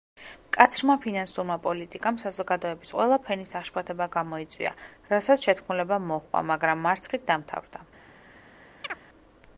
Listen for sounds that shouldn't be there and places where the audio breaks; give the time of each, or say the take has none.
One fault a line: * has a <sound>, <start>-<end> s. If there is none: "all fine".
* has a chirp, 8.8-9.0 s